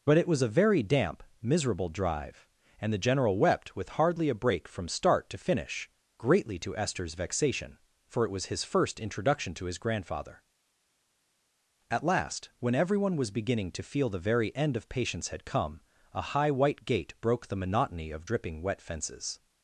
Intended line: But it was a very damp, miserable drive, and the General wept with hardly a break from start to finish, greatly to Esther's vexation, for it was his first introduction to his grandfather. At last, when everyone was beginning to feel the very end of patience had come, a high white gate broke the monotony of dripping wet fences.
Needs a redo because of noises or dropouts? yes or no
no